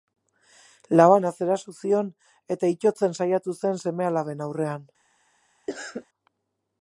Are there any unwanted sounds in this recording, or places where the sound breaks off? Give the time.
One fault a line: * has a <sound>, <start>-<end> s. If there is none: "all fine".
* has a cough, 5.7-6.1 s